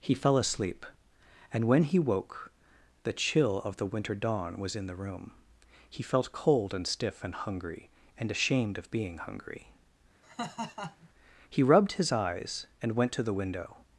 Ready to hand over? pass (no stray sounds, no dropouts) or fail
fail